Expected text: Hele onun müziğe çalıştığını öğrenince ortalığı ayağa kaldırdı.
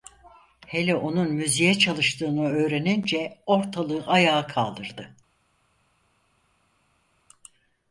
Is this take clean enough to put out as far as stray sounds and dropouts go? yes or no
yes